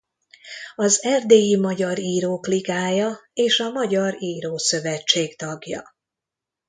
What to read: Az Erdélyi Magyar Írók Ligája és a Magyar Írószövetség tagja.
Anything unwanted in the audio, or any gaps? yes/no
no